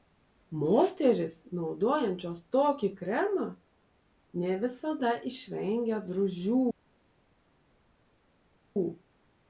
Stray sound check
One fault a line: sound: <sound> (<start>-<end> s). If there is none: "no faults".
no faults